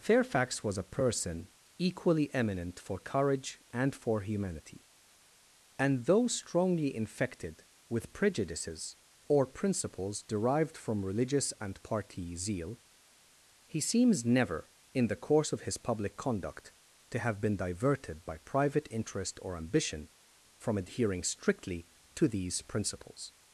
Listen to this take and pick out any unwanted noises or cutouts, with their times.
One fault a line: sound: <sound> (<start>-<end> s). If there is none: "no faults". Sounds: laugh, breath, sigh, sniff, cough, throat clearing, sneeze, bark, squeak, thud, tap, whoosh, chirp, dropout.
no faults